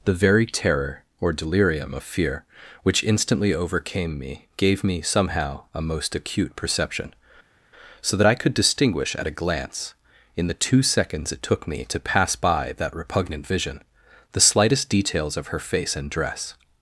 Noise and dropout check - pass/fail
pass